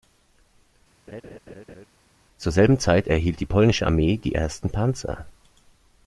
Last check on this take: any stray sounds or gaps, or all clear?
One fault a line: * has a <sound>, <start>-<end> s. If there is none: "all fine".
* has a laugh, 1.1-1.9 s